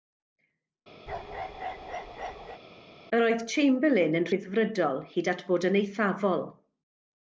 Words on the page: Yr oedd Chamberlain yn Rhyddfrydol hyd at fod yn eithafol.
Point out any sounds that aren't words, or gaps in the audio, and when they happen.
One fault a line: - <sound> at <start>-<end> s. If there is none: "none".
- bark at 1.1-2.6 s